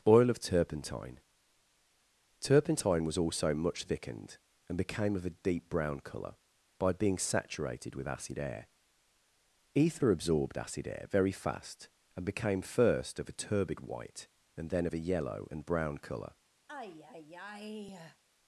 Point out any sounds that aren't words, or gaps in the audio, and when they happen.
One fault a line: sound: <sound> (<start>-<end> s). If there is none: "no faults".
sound: sigh (16.7-18.2 s)